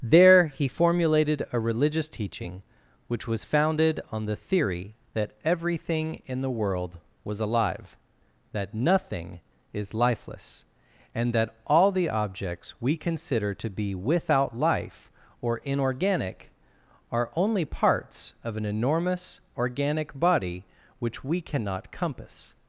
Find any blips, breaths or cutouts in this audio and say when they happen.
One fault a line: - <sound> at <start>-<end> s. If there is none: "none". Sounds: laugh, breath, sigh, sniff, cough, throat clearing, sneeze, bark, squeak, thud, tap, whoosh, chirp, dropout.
none